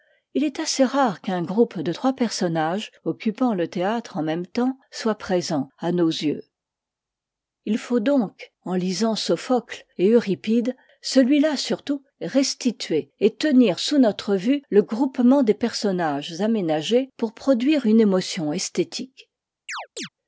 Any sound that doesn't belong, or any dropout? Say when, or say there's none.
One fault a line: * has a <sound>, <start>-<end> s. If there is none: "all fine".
* has a chirp, 19.7-20.1 s